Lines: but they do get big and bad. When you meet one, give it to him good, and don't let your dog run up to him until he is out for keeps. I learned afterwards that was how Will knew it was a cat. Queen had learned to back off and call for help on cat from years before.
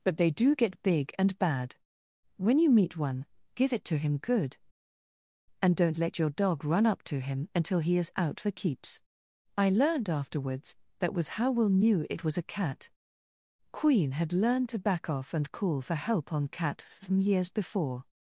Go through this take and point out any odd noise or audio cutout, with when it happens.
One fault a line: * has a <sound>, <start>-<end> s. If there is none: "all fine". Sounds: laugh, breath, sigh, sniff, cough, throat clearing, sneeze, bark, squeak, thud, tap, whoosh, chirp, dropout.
all fine